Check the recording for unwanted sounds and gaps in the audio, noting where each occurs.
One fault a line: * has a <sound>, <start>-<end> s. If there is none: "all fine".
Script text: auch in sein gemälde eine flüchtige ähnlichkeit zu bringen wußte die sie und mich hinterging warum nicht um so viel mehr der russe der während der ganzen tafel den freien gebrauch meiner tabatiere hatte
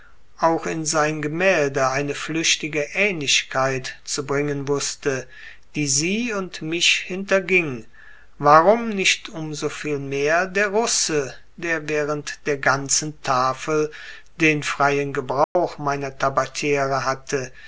* has a dropout, 15.4-15.6 s